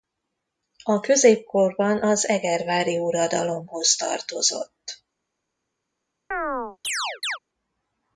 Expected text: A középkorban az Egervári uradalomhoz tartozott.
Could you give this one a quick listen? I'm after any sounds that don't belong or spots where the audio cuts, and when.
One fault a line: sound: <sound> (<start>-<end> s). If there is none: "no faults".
sound: chirp (6.3-7.4 s)